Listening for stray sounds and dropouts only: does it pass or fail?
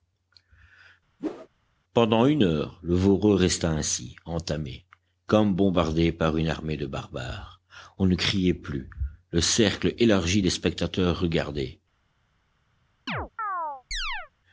fail